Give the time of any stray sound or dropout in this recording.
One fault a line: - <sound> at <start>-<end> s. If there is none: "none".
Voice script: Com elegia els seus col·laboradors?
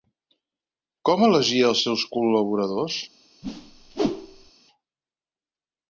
- whoosh at 3.4-4.5 s